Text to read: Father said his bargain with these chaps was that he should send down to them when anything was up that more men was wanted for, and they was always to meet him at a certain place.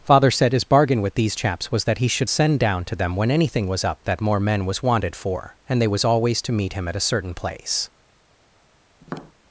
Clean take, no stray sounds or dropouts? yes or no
no